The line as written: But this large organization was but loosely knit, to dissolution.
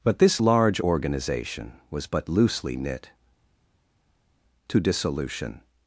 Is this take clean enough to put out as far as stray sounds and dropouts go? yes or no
yes